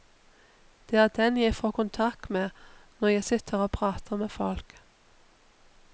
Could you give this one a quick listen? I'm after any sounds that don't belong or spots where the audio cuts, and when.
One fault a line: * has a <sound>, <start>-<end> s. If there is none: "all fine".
all fine